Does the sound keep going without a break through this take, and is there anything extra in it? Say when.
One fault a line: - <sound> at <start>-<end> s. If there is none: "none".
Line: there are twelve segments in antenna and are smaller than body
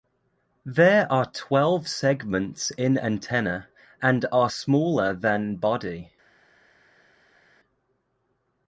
none